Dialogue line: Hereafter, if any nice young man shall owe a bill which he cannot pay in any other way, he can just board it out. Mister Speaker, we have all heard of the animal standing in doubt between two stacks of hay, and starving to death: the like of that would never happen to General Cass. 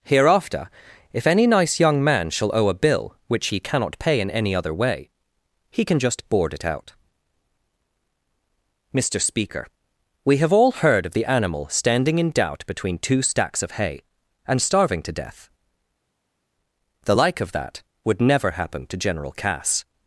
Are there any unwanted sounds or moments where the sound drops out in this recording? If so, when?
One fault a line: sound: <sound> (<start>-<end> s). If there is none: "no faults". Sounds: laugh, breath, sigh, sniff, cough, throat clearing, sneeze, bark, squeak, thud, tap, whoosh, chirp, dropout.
no faults